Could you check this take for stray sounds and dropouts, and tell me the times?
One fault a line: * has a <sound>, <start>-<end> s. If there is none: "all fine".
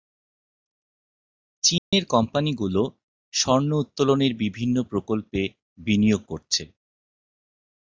* has a dropout, 1.8-1.9 s